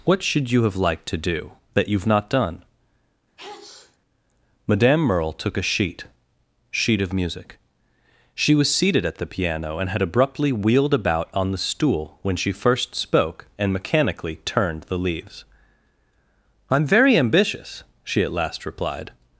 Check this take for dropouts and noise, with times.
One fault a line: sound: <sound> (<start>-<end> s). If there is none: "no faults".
sound: sneeze (3.4-4.0 s)